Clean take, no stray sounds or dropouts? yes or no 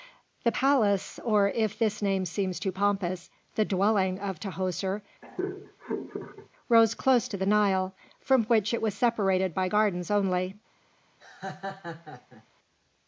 no